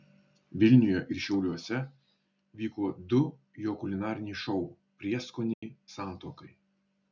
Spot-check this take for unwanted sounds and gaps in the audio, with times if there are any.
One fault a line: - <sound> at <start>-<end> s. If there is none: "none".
- dropout at 5.5-5.6 s